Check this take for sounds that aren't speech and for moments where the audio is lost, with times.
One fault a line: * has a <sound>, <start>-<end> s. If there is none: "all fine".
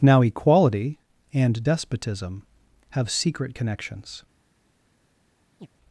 * has a chirp, 5.6-5.7 s